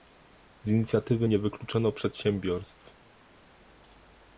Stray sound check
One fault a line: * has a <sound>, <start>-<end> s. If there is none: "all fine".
all fine